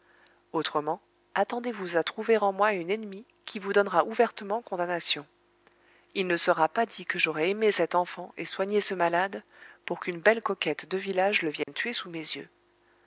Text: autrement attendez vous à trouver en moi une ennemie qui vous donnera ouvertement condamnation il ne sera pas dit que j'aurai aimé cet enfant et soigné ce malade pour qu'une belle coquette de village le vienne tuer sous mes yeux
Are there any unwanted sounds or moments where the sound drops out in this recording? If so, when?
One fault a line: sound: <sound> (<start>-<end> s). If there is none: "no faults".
sound: dropout (11.6-11.7 s)